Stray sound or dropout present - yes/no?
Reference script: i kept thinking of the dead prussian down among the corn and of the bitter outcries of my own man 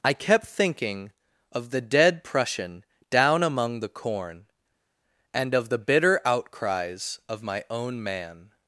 no